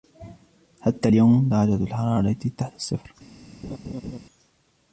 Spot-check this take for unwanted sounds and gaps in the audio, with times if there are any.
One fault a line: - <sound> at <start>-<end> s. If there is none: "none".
- laugh at 3.6-4.2 s